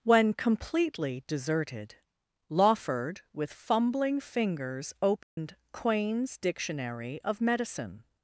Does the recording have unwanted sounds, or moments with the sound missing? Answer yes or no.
yes